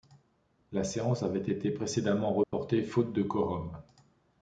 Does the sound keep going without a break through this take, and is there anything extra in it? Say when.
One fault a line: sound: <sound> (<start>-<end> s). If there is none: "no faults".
sound: dropout (2.4-2.5 s)